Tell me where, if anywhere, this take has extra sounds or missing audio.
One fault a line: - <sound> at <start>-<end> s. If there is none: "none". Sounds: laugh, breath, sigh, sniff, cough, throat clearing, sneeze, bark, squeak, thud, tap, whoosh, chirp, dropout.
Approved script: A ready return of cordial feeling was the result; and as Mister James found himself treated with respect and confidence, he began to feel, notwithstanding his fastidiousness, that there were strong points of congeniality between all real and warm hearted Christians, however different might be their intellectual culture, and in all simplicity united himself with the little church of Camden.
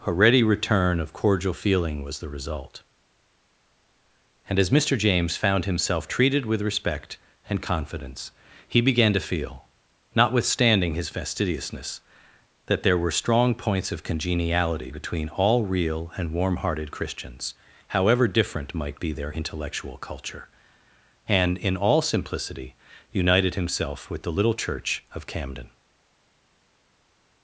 none